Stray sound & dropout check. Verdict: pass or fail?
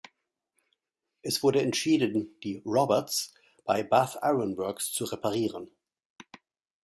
pass